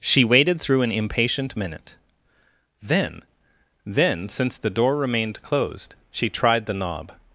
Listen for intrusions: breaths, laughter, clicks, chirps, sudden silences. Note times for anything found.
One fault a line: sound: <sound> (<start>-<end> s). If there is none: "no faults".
no faults